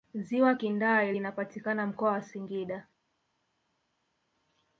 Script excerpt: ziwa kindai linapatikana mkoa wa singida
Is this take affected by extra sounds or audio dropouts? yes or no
no